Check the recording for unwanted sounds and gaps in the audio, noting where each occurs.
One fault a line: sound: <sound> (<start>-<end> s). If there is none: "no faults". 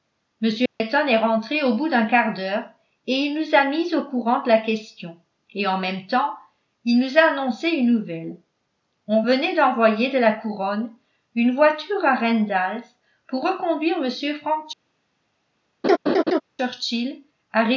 sound: dropout (0.7-0.8 s)
sound: laugh (15.8-16.4 s)